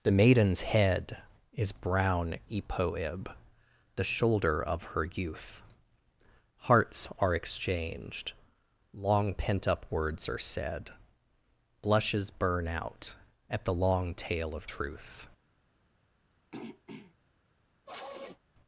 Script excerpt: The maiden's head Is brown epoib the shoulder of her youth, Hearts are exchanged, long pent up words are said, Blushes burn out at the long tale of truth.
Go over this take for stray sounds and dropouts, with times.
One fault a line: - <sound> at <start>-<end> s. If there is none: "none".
- throat clearing at 16.5-17.2 s
- sniff at 17.9-18.4 s